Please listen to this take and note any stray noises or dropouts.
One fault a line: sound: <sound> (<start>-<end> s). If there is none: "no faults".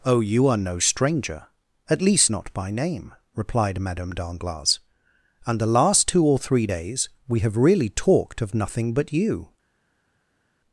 no faults